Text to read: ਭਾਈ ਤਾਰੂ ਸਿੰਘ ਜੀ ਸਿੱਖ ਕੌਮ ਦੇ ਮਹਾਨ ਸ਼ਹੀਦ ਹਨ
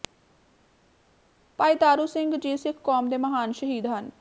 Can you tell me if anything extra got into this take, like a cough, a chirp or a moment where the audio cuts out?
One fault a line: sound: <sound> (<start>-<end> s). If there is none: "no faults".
no faults